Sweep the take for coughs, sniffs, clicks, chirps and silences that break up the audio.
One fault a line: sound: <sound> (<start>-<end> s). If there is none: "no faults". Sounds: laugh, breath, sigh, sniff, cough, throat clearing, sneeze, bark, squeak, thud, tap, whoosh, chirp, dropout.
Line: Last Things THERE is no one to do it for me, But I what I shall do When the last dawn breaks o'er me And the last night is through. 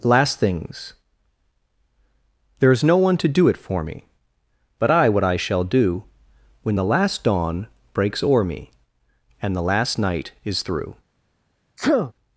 sound: sneeze (11.8-12.1 s)